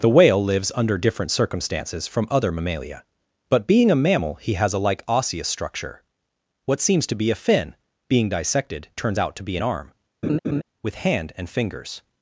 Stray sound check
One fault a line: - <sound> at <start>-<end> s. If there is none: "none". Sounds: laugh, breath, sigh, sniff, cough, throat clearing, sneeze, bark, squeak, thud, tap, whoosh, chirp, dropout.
- laugh at 10.2-10.6 s